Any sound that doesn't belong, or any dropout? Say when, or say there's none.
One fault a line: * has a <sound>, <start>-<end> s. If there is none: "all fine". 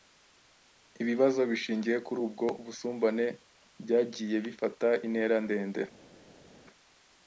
all fine